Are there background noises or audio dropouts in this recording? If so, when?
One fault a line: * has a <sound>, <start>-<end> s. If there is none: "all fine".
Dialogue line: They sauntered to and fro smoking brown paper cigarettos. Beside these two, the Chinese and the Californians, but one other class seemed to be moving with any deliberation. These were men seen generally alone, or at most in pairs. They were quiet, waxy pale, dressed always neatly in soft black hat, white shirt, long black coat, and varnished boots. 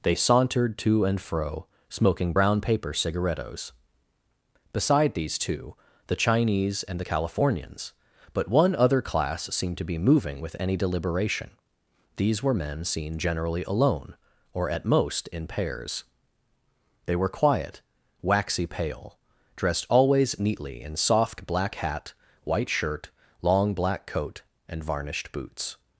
all fine